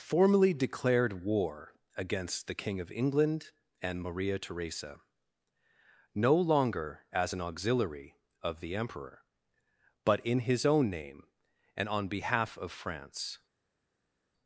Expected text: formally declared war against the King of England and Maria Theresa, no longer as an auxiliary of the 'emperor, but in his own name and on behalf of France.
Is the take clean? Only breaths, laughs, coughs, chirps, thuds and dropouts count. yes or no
yes